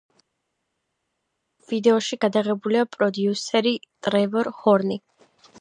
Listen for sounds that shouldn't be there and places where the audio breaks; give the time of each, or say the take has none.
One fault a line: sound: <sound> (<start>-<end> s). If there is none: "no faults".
no faults